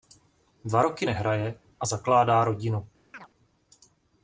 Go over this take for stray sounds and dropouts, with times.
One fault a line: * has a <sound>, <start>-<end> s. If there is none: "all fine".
* has a chirp, 3.1-3.3 s